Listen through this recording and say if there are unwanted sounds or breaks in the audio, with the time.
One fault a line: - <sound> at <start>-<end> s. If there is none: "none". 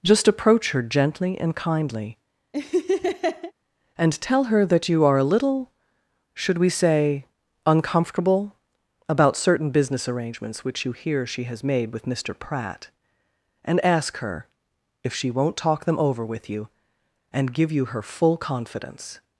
- laugh at 2.5-3.5 s